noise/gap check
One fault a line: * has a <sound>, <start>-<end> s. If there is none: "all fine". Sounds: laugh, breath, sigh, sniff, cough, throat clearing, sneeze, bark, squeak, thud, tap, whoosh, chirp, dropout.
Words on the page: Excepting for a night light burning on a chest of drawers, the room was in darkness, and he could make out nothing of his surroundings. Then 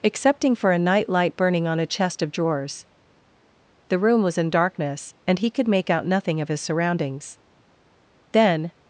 all fine